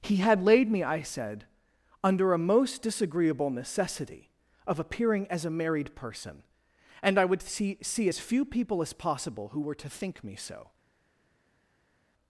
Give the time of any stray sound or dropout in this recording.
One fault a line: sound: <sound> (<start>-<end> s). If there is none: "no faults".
no faults